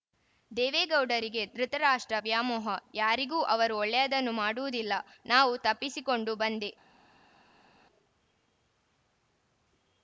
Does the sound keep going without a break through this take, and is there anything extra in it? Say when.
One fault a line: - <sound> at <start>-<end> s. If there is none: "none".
none